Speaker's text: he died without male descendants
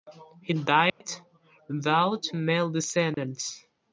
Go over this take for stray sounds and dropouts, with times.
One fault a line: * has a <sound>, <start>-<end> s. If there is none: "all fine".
* has a dropout, 0.9-1.0 s
* has a dropout, 3.1-3.2 s